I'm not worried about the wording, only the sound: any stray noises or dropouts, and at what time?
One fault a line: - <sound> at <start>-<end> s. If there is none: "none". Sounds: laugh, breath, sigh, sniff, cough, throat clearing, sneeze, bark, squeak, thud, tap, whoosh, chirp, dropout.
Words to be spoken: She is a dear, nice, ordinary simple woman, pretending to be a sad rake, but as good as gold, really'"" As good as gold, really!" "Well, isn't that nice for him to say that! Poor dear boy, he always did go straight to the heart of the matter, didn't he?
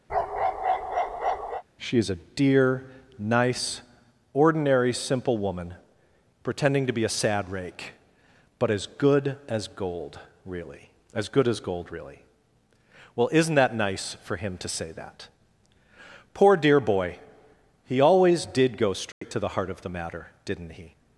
- bark at 0.1-1.6 s
- dropout at 19.1-19.2 s